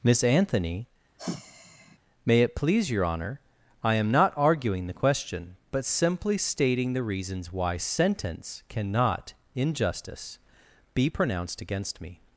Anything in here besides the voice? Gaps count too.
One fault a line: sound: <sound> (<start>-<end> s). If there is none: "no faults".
sound: sigh (1.2-2.0 s)